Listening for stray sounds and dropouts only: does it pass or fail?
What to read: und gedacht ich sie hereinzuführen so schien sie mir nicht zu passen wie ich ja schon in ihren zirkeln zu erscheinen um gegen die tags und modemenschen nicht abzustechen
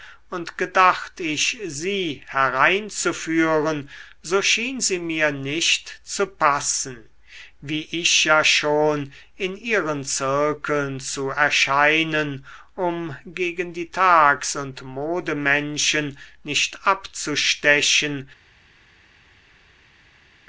pass